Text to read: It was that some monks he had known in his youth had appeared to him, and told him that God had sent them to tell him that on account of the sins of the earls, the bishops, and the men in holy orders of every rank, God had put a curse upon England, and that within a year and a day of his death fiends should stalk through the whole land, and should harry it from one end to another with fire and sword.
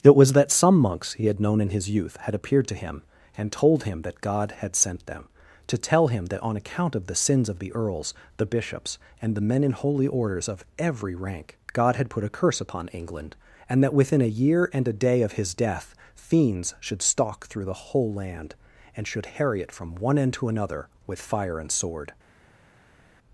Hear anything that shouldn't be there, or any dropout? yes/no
no